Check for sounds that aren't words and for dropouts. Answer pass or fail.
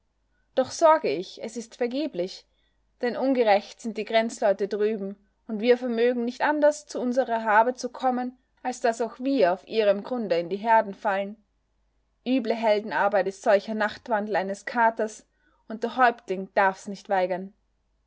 pass